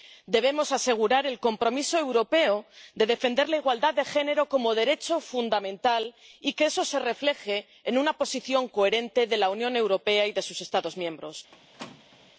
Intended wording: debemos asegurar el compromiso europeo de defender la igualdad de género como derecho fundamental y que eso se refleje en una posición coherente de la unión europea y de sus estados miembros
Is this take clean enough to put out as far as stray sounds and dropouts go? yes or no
no